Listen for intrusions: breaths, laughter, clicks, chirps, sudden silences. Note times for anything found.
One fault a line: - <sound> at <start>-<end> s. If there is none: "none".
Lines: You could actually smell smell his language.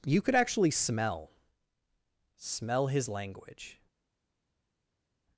none